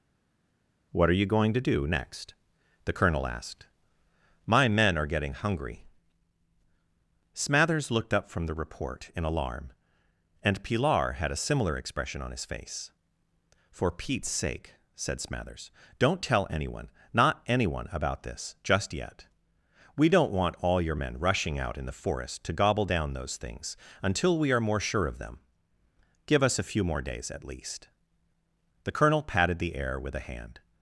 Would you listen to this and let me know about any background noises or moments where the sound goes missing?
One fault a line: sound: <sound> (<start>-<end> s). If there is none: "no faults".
no faults